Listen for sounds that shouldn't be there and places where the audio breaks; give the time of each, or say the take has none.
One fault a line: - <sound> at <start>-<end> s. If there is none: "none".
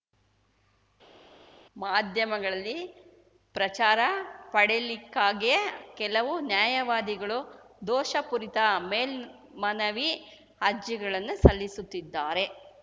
none